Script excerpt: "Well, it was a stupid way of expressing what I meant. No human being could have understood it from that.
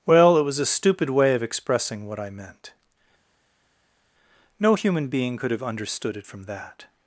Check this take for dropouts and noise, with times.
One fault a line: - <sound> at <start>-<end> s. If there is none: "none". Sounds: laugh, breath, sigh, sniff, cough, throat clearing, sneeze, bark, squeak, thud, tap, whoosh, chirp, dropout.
none